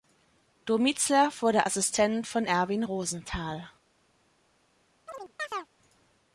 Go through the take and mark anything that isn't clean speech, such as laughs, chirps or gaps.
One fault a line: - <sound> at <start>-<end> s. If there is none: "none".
- chirp at 5.1-5.7 s